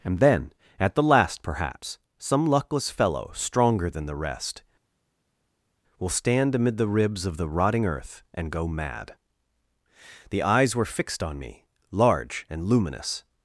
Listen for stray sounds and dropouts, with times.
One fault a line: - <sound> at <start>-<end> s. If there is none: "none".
none